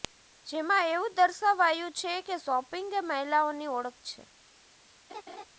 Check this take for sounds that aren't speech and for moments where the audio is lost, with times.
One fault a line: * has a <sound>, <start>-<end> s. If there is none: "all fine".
* has a laugh, 5.1-5.5 s